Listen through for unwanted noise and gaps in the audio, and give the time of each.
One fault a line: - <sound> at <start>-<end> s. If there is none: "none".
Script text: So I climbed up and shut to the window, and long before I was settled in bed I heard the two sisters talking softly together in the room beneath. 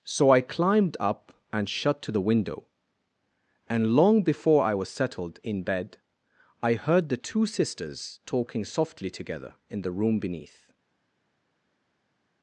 none